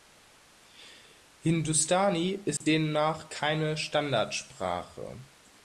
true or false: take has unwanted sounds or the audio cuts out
true